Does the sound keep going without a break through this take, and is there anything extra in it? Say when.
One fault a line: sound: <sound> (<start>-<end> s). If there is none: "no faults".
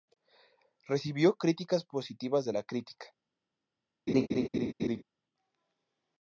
sound: laugh (4.1-5.0 s)